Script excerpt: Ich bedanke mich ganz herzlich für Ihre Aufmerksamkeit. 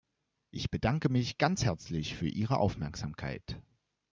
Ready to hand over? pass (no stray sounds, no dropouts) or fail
pass